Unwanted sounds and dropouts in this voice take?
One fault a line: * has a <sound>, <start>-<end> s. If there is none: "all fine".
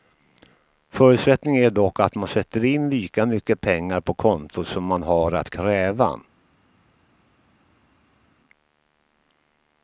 all fine